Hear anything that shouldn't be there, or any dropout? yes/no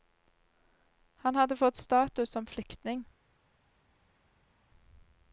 no